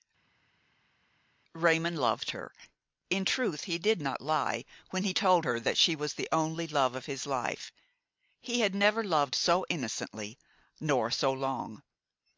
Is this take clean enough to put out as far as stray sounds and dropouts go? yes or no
yes